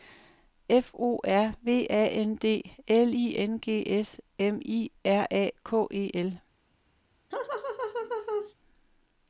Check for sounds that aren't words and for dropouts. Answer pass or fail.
fail